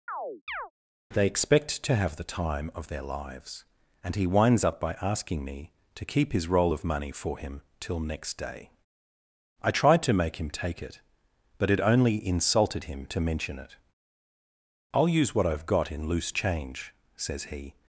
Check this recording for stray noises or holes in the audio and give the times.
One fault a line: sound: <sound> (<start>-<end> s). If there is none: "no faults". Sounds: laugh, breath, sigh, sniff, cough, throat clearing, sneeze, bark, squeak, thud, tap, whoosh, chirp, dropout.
sound: chirp (0.1-0.7 s)